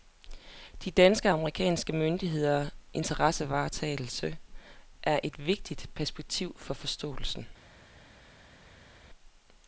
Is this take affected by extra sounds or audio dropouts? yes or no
no